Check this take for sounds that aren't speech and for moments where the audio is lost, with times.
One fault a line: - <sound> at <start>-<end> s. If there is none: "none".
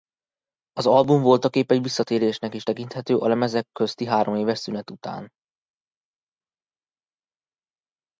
none